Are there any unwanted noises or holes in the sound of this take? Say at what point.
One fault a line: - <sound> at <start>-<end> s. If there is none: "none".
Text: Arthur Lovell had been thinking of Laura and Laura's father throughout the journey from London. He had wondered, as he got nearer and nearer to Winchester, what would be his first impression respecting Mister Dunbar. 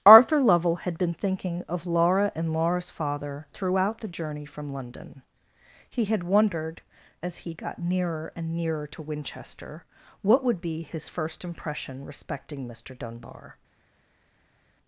none